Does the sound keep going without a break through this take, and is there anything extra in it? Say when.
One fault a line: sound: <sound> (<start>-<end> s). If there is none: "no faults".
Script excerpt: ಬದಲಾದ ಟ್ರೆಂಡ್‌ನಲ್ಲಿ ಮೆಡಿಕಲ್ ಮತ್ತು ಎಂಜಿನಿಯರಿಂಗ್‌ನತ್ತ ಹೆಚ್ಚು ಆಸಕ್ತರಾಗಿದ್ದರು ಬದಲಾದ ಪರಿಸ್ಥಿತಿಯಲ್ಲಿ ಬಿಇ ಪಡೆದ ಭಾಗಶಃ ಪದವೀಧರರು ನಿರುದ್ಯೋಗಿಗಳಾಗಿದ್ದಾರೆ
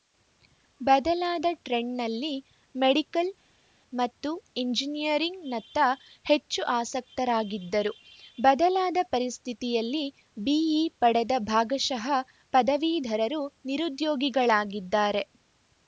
no faults